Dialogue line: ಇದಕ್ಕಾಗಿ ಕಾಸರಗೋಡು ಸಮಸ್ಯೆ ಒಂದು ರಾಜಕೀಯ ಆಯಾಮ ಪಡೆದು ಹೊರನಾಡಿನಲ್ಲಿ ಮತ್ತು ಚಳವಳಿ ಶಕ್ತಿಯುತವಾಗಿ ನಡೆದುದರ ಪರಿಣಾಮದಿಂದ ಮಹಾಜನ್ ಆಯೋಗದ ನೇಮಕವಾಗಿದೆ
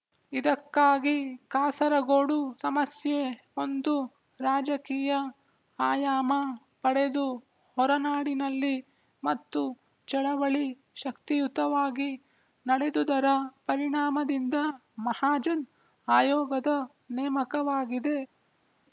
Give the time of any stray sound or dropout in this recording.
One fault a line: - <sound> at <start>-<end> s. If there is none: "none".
none